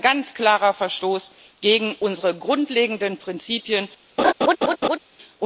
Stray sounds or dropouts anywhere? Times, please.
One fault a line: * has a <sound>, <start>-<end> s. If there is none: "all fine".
* has a laugh, 4.2-5.0 s